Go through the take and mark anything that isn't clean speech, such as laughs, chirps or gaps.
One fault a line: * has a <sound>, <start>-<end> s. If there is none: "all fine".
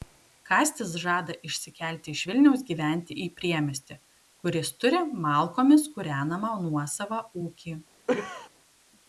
* has a cough, 8.1-8.5 s